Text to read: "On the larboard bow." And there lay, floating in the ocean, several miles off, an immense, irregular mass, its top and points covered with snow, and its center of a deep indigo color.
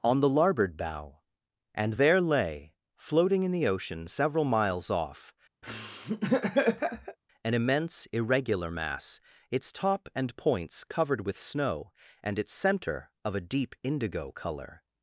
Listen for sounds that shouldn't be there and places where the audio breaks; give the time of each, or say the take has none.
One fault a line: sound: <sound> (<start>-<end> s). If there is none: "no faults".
sound: laugh (5.6-7.2 s)